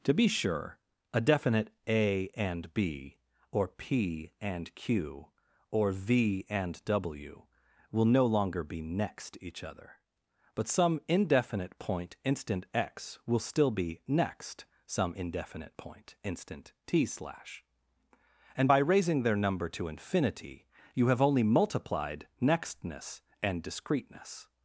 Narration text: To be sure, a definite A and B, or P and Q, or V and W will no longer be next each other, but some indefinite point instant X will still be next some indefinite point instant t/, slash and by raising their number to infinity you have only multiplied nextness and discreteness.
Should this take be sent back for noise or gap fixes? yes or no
no